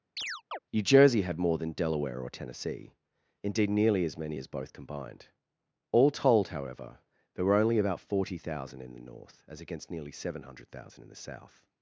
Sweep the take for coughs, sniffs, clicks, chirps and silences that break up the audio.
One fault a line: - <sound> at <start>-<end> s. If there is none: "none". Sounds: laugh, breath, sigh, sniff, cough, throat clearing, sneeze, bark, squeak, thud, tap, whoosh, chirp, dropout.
- chirp at 0.2-0.6 s